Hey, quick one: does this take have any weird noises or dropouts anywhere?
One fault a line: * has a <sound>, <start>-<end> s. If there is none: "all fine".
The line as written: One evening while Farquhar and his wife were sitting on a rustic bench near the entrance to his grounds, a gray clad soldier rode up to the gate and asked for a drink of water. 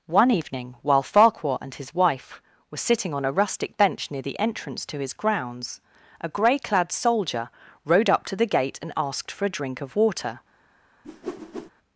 * has a whoosh, 11.0-11.7 s